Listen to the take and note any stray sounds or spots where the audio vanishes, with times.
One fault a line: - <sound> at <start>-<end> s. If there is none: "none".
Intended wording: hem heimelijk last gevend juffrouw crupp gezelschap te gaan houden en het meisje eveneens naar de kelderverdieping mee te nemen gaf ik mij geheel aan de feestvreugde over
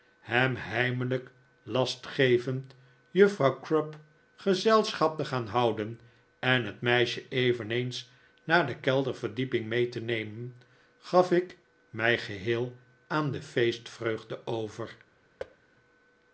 - thud at 15.4-15.6 s